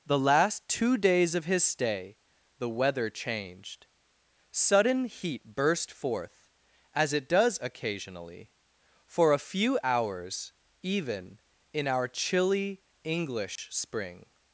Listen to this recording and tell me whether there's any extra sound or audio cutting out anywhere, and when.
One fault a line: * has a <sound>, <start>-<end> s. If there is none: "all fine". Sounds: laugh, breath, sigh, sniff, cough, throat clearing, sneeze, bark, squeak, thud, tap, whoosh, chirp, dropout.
* has a dropout, 13.6-13.6 s